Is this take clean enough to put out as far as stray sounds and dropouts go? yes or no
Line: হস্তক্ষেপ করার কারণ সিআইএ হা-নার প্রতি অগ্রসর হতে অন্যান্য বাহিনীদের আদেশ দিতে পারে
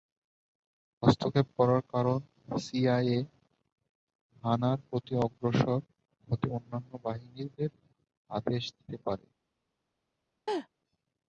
no